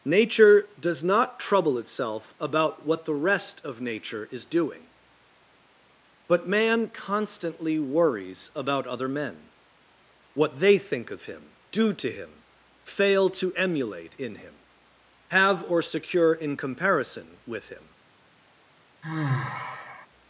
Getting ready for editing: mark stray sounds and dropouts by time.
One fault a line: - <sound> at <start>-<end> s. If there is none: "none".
- sigh at 19.0-20.1 s